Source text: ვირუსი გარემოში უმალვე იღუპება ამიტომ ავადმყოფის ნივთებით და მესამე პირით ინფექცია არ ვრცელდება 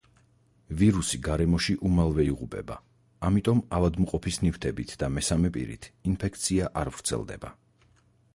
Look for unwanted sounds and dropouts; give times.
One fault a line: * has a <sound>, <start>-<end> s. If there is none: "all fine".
all fine